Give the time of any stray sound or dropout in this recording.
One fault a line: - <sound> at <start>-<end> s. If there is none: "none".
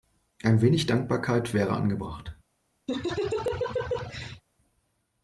- laugh at 2.9-4.4 s